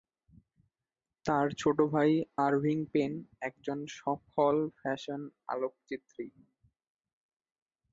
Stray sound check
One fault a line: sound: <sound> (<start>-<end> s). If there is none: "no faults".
no faults